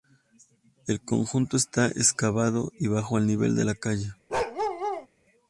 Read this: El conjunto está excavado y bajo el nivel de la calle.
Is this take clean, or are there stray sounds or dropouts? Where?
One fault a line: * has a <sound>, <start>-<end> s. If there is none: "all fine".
* has a bark, 4.3-5.1 s